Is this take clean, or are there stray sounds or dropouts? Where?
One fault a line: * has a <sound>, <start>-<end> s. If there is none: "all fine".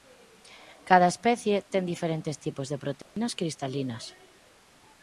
* has a dropout, 3.0-3.2 s